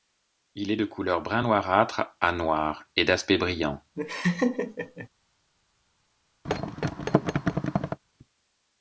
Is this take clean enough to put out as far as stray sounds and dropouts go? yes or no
no